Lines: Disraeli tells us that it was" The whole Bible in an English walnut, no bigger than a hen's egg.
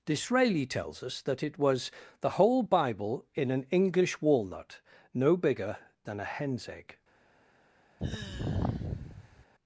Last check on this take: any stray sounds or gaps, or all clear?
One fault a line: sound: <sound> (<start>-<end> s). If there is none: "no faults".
sound: sigh (8.0-9.5 s)